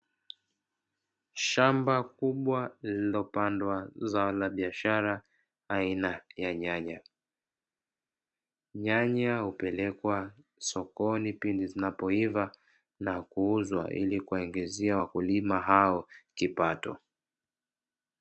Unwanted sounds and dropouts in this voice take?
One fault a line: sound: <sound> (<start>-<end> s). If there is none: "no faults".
no faults